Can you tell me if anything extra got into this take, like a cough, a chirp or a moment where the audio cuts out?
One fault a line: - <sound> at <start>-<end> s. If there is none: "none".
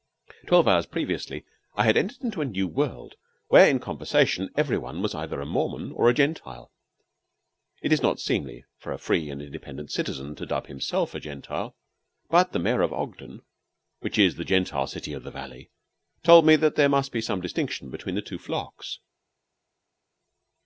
none